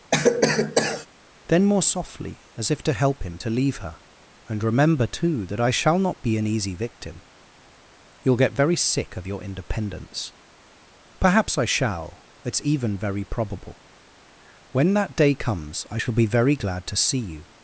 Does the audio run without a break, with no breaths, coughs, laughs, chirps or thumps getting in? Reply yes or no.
no